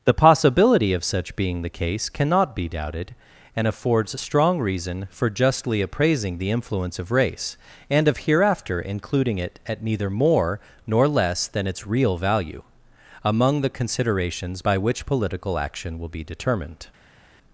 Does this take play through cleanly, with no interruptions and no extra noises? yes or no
yes